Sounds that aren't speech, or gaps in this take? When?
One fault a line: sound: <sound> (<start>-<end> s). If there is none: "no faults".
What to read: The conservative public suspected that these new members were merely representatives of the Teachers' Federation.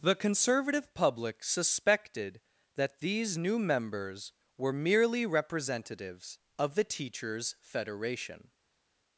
no faults